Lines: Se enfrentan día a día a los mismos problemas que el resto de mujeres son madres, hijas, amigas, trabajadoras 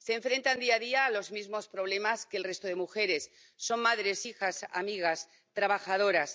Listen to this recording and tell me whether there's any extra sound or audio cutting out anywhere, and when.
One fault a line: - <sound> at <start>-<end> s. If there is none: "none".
none